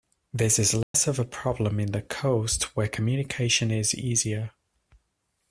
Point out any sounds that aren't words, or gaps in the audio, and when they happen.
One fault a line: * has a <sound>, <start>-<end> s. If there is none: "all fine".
* has a dropout, 0.8-0.9 s